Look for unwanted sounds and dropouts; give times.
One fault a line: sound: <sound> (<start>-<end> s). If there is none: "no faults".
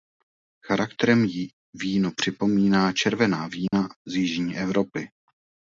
sound: dropout (3.7-3.7 s)